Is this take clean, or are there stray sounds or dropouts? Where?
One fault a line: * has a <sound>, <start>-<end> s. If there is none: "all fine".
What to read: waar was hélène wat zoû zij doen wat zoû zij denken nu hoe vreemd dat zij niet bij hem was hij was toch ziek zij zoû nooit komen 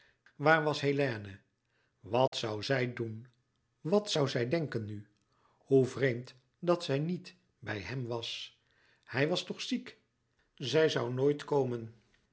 * has a dropout, 2.3-2.3 s